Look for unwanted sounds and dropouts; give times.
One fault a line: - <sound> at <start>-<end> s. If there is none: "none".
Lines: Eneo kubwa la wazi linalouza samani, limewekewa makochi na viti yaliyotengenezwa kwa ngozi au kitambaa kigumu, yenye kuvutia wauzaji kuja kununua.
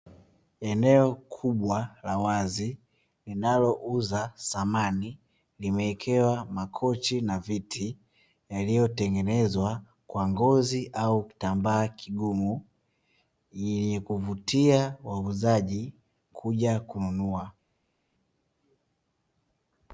none